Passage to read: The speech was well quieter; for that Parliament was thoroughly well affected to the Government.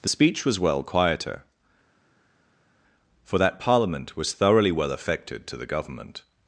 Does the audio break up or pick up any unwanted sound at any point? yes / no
no